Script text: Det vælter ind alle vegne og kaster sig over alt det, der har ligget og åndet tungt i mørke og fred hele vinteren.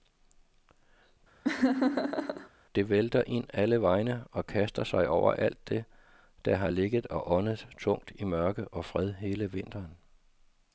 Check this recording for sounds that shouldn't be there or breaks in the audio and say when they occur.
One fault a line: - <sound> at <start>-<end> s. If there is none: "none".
- laugh at 1.4-2.5 s